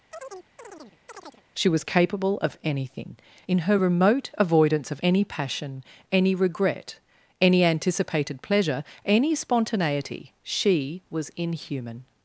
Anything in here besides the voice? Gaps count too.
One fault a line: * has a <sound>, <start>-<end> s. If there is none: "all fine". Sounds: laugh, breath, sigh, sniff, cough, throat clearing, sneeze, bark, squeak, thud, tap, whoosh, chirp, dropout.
* has a chirp, 0.1-1.4 s